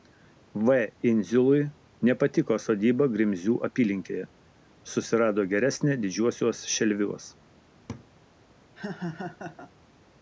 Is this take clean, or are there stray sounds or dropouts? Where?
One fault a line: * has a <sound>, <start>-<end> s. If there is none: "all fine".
* has a laugh, 7.9-8.1 s
* has a laugh, 8.8-9.7 s